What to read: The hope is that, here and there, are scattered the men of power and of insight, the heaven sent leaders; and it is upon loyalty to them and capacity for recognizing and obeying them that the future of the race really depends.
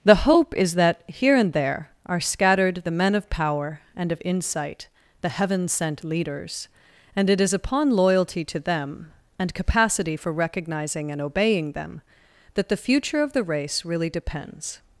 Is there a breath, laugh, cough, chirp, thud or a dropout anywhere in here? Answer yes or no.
no